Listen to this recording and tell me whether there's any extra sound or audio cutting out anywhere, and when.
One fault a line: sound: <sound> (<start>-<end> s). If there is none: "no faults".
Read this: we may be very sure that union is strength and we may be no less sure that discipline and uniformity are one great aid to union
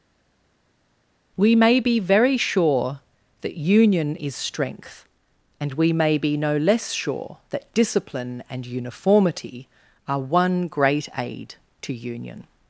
no faults